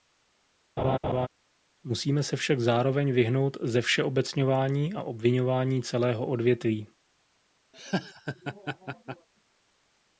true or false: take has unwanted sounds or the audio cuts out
true